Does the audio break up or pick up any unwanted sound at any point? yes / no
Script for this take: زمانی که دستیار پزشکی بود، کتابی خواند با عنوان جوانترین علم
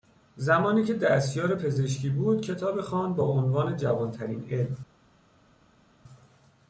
no